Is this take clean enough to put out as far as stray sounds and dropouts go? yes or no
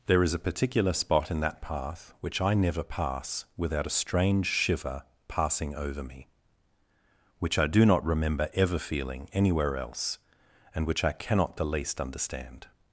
yes